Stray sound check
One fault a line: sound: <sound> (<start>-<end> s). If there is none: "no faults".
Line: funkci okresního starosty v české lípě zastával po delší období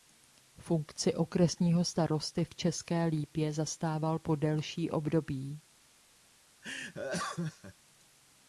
sound: laugh (6.6-7.7 s)